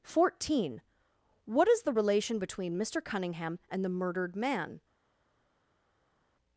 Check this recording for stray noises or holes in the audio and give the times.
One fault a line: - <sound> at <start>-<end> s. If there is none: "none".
none